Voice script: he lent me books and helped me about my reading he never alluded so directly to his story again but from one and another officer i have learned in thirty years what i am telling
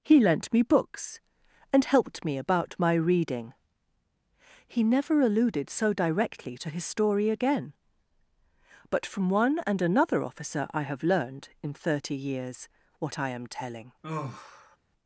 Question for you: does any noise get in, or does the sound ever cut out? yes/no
yes